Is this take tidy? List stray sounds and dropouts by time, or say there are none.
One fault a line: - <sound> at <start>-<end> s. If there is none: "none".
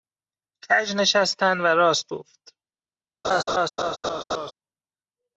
- laugh at 3.2-4.5 s